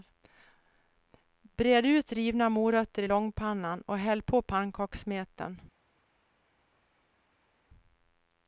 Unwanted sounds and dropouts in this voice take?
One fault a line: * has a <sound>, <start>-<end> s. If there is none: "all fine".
all fine